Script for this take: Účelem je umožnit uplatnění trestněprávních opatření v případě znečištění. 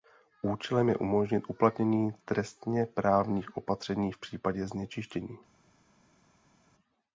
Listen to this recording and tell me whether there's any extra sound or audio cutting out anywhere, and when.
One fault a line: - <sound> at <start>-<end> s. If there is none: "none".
none